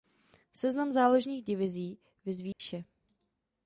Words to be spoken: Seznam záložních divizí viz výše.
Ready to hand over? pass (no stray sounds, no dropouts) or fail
fail